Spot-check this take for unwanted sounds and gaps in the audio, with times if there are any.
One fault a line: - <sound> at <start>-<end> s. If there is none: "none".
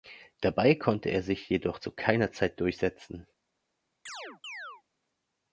- chirp at 4.1-4.8 s